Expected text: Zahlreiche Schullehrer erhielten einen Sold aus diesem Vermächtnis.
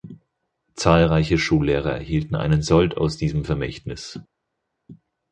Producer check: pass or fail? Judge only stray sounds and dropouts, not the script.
pass